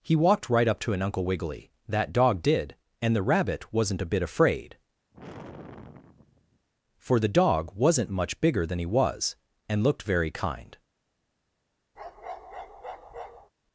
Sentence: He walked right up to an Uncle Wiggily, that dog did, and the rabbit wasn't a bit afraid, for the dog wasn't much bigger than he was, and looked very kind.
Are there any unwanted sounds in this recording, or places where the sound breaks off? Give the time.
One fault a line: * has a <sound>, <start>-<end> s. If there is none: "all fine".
* has a sigh, 5.1-6.7 s
* has a bark, 12.0-13.5 s